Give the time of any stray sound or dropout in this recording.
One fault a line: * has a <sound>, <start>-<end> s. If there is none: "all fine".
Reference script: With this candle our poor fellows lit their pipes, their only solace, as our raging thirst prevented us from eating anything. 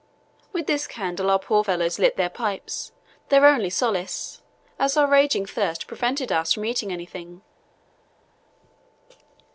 all fine